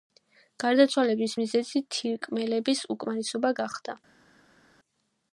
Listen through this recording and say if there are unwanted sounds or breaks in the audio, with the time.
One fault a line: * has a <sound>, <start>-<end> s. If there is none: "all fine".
all fine